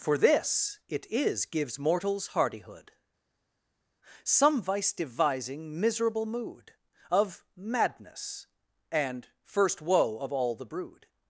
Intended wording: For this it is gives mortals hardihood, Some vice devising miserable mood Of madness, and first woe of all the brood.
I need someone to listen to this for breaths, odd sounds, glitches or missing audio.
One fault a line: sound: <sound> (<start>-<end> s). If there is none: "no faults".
no faults